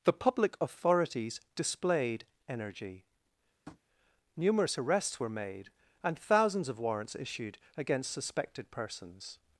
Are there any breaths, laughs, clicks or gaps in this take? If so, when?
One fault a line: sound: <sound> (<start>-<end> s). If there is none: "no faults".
sound: tap (3.7-3.8 s)